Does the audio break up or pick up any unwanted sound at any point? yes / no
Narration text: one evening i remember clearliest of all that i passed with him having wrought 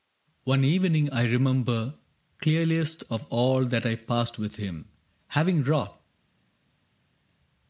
no